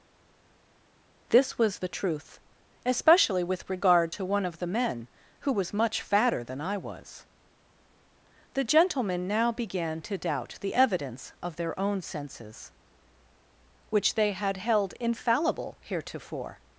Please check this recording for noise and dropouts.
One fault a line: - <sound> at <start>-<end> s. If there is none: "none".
none